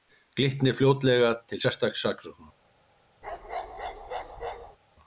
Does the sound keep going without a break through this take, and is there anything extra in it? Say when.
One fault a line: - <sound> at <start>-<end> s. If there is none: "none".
- bark at 3.2-4.8 s